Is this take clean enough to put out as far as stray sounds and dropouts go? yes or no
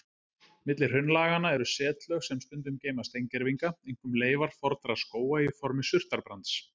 yes